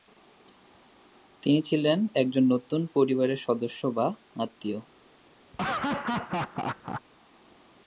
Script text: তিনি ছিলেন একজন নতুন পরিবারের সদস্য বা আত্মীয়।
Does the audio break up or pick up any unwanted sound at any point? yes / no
yes